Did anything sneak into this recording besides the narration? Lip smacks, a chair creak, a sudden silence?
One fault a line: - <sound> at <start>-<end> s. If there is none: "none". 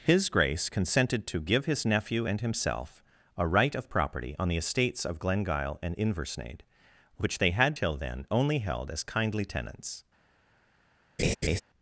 - laugh at 11.2-11.6 s